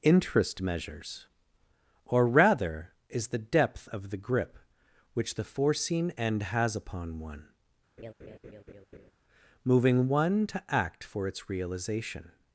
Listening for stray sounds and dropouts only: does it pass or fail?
fail